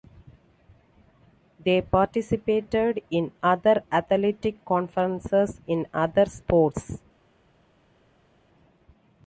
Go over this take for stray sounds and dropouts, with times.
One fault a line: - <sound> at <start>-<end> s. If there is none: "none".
none